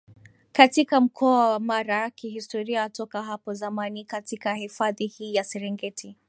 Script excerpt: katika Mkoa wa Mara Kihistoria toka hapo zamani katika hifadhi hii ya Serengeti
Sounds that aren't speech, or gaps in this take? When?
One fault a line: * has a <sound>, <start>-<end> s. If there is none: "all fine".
all fine